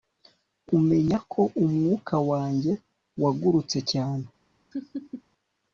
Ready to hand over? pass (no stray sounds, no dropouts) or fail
fail